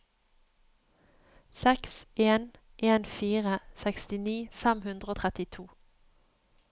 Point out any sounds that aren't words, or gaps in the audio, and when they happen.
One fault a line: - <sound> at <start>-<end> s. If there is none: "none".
none